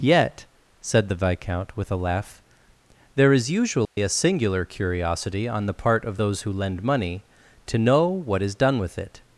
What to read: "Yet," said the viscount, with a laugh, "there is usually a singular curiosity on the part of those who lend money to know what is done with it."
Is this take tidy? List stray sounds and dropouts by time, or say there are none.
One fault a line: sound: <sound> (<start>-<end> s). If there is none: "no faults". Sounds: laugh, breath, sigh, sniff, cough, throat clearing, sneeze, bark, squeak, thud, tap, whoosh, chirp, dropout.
sound: dropout (3.8-4.0 s)